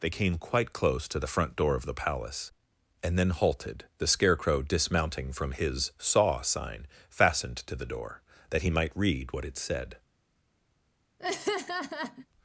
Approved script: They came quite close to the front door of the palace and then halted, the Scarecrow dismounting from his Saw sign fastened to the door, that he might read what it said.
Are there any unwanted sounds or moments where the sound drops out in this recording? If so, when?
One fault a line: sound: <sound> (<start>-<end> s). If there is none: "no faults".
sound: laugh (11.2-12.3 s)